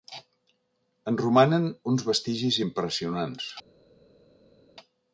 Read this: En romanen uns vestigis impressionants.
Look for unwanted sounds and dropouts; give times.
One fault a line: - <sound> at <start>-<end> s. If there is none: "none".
none